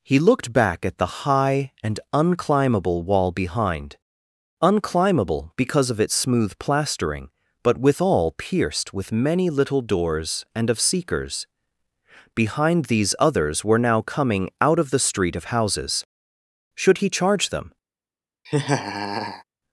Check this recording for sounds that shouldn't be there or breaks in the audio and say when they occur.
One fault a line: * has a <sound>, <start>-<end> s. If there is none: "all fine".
* has a laugh, 18.5-19.4 s